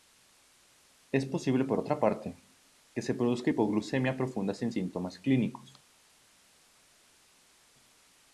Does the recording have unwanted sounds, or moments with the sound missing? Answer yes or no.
no